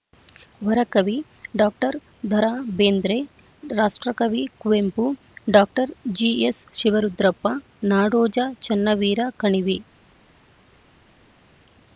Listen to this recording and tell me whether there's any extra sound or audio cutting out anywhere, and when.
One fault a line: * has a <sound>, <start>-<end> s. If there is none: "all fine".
all fine